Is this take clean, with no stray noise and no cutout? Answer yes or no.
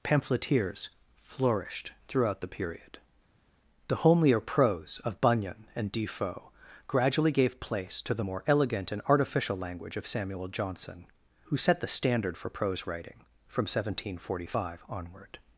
yes